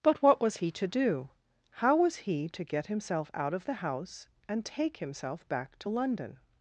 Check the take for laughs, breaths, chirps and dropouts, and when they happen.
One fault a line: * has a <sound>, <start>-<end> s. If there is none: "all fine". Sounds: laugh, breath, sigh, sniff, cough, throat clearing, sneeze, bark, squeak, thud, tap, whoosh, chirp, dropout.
all fine